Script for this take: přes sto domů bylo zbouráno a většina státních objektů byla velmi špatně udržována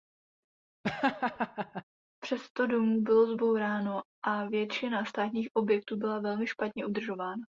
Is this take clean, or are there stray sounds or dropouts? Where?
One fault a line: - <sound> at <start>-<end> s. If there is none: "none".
- laugh at 0.8-1.8 s